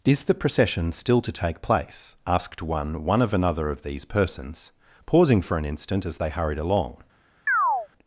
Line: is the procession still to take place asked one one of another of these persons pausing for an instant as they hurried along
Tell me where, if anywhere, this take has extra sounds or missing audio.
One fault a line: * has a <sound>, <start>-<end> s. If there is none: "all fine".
* has a chirp, 7.5-7.9 s